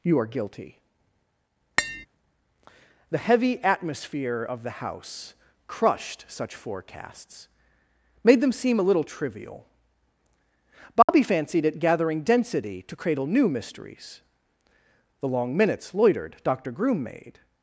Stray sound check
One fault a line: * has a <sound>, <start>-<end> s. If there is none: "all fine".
* has a tap, 1.8-2.1 s
* has a dropout, 11.0-11.1 s